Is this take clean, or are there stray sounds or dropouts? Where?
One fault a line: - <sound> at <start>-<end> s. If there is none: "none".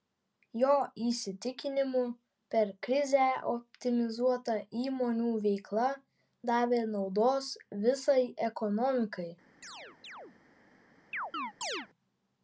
- chirp at 9.6-10.4 s
- chirp at 11.1-11.9 s